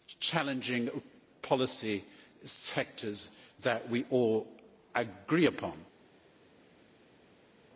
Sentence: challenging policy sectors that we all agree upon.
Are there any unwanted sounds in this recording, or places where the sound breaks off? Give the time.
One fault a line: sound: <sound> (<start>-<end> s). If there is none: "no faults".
no faults